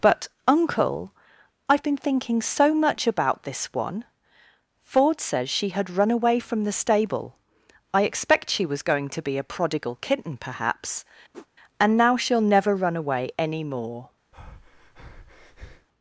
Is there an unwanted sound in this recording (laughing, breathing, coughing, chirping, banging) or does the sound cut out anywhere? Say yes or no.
yes